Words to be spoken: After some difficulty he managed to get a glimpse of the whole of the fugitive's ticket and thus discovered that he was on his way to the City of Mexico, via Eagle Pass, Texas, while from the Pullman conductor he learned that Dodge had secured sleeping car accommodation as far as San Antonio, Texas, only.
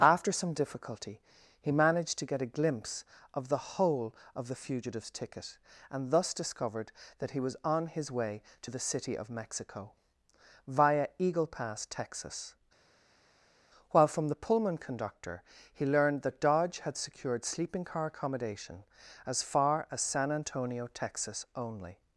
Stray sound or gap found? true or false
false